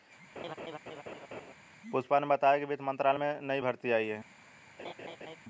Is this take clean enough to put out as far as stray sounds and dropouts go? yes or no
no